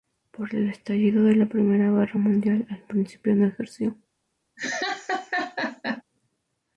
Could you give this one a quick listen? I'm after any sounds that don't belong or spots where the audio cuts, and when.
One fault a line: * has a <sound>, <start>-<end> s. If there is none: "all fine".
* has a laugh, 4.6-6.0 s